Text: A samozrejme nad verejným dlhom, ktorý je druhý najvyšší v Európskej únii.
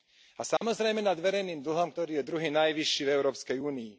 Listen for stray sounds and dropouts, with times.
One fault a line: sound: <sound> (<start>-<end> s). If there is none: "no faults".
sound: dropout (0.6-0.6 s)